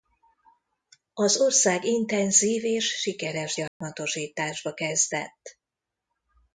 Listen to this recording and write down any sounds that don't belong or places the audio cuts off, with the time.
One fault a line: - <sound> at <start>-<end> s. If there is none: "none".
- dropout at 3.7-3.8 s